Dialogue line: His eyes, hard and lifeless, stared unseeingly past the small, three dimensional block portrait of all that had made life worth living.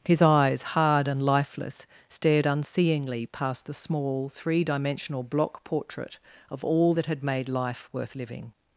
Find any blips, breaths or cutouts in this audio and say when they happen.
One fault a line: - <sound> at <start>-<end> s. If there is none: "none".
none